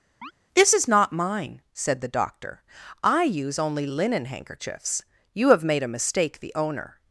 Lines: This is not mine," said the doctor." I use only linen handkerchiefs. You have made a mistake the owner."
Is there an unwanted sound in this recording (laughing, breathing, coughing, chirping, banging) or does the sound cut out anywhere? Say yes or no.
yes